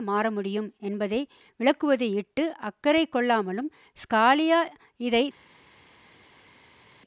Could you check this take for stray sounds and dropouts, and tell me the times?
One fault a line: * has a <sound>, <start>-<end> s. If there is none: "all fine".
all fine